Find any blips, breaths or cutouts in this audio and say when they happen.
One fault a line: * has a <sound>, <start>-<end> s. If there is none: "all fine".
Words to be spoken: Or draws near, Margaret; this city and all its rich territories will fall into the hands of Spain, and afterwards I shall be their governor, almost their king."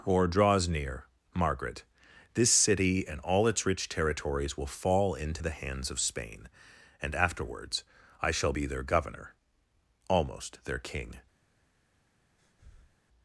* has a breath, 12.4-13.0 s